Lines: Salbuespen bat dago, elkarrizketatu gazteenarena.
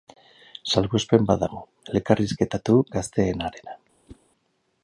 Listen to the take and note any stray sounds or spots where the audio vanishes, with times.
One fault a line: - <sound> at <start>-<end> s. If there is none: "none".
- whoosh at 4.1-4.2 s